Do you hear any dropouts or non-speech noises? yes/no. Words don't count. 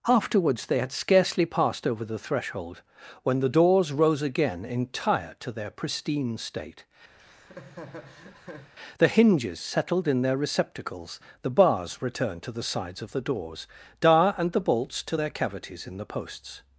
yes